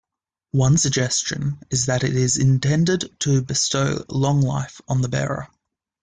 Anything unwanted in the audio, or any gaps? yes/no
no